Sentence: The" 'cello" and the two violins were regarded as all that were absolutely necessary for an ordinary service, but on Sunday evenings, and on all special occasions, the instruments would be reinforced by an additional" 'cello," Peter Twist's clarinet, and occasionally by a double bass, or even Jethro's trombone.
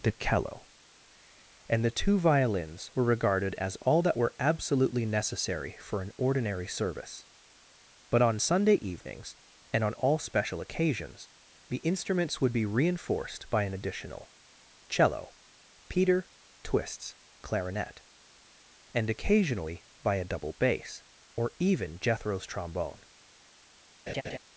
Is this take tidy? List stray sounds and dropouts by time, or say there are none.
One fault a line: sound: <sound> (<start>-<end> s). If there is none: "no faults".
sound: laugh (24.1-24.4 s)